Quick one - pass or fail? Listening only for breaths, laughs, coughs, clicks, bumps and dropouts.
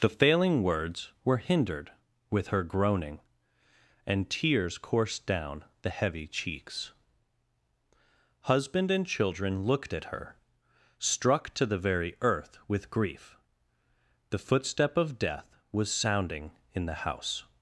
pass